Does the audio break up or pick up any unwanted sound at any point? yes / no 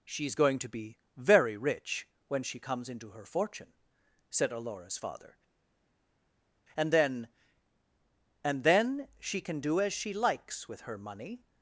no